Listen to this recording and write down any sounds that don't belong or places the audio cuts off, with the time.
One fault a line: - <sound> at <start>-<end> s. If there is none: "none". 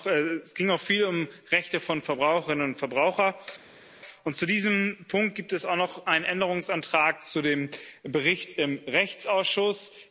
none